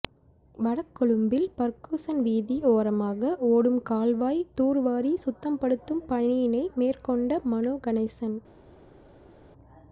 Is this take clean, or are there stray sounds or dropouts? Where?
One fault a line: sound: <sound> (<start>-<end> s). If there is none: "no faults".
no faults